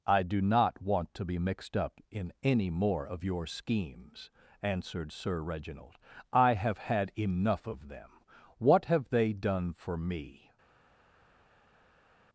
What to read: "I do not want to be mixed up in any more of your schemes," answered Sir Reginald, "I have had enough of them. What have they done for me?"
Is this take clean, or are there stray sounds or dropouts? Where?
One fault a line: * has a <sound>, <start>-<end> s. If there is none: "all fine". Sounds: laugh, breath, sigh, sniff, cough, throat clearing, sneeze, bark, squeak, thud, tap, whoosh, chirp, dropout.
all fine